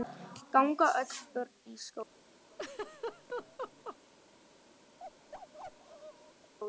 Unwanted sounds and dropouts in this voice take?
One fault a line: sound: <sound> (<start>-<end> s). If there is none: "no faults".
sound: laugh (2.5-4.0 s)
sound: bark (5.0-6.5 s)